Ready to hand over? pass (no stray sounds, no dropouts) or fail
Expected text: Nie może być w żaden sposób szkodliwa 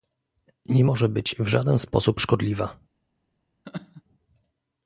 fail